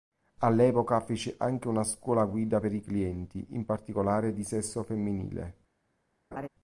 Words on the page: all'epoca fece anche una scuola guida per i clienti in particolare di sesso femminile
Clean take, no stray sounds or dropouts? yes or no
no